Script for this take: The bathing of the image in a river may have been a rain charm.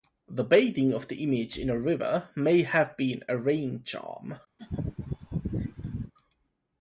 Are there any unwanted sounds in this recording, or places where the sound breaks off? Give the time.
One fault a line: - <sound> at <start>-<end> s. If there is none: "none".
- laugh at 4.6-6.1 s